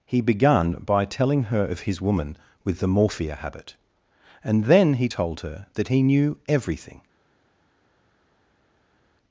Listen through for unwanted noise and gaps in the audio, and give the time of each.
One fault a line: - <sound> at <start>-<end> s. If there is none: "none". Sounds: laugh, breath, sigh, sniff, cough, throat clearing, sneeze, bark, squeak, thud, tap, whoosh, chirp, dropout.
none